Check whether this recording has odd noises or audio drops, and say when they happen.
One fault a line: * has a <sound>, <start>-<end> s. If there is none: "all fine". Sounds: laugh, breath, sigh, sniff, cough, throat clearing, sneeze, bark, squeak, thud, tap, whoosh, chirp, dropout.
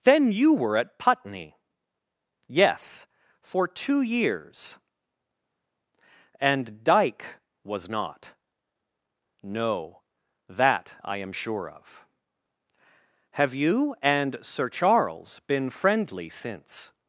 all fine